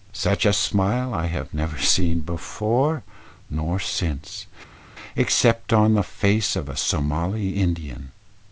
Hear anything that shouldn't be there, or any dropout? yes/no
no